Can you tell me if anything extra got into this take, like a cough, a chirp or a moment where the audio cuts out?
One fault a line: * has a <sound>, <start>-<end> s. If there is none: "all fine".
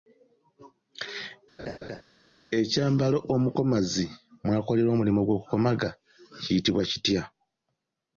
* has a laugh, 1.6-2.0 s